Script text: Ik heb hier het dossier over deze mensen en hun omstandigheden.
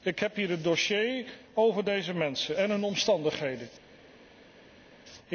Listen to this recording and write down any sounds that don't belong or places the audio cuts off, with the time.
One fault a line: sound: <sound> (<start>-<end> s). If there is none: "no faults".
no faults